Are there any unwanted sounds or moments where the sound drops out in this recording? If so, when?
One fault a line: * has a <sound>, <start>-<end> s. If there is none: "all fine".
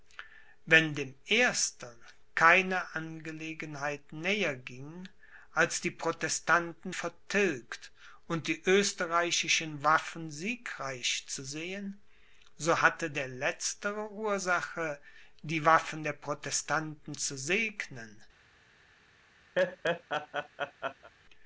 * has a laugh, 19.6-21.1 s